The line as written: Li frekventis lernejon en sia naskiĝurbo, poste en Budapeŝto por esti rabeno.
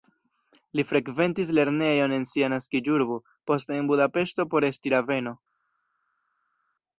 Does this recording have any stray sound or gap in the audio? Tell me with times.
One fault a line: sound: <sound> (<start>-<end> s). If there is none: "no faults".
no faults